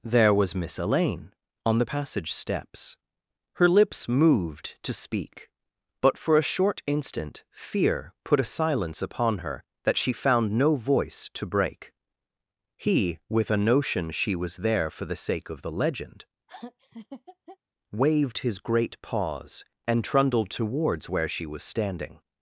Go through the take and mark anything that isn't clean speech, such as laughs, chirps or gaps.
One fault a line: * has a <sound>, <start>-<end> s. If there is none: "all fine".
* has a laugh, 16.5-17.6 s